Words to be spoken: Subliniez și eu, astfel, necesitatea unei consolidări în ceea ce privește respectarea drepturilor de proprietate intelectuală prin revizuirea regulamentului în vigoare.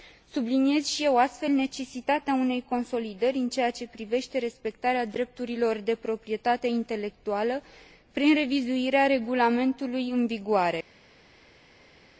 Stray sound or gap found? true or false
false